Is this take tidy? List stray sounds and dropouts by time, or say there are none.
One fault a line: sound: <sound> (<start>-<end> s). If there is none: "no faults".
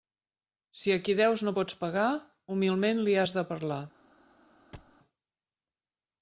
sound: thud (4.7-5.0 s)